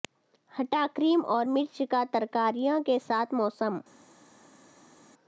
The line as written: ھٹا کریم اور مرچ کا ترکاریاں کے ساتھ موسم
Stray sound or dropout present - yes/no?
no